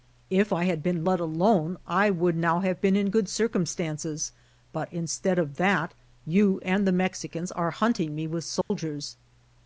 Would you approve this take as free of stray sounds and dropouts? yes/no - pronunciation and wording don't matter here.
no